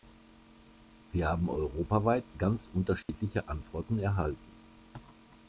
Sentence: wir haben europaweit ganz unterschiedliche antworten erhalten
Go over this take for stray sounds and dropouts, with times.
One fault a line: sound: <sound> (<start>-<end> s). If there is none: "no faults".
sound: dropout (3.0-3.1 s)